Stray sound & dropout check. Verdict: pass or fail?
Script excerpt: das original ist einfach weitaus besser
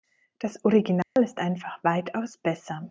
fail